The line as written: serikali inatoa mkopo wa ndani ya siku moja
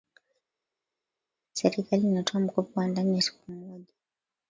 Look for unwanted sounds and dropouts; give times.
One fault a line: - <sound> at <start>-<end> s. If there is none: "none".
none